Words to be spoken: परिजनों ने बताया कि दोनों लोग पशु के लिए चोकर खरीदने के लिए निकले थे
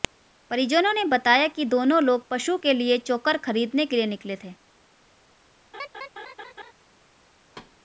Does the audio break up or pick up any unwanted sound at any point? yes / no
yes